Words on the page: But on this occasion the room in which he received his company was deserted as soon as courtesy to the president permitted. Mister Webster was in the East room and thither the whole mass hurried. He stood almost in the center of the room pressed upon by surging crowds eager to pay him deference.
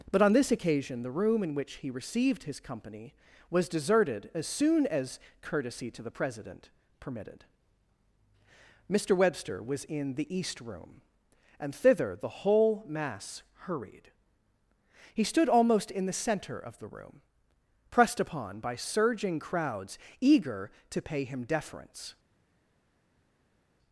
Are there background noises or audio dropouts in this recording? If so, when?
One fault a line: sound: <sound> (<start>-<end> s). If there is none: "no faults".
no faults